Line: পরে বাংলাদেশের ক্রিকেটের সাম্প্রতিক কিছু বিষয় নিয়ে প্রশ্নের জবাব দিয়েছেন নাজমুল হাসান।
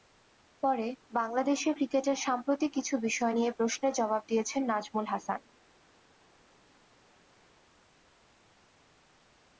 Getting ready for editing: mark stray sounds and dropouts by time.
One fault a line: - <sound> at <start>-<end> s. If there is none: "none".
none